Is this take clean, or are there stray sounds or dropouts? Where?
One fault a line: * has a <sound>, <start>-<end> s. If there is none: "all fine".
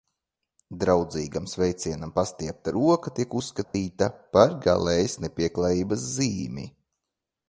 * has a dropout, 3.6-3.7 s